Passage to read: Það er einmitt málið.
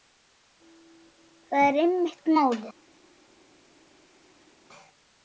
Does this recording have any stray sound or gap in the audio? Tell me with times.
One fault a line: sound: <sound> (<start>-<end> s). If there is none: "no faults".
no faults